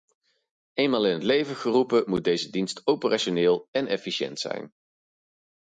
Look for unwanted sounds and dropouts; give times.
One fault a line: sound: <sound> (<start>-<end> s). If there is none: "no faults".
no faults